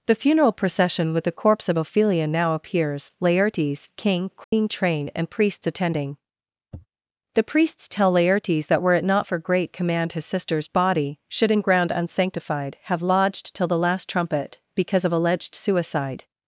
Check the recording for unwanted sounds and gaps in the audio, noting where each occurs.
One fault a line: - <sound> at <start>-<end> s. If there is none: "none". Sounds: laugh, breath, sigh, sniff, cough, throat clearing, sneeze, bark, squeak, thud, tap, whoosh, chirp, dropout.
- dropout at 4.4-4.5 s
- sniff at 6.7-6.9 s